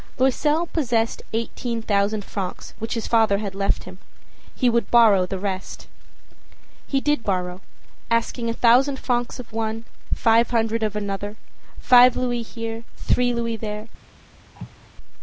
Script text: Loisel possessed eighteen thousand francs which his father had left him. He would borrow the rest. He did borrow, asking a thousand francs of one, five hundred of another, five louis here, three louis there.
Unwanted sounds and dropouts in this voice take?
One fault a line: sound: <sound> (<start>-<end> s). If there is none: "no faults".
sound: cough (14.6-14.9 s)